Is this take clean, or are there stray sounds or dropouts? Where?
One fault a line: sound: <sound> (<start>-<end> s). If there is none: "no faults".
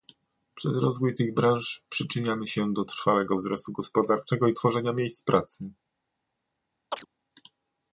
sound: chirp (6.9-7.1 s)